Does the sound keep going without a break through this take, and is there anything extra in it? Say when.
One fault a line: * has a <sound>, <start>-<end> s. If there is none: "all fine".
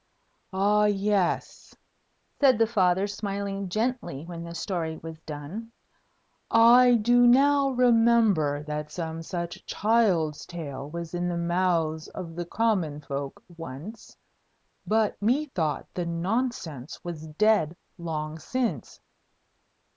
all fine